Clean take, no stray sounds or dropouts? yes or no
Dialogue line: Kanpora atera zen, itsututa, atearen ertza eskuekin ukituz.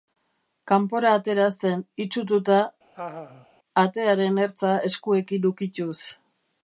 no